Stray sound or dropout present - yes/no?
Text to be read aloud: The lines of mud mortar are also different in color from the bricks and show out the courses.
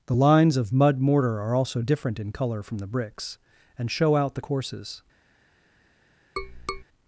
yes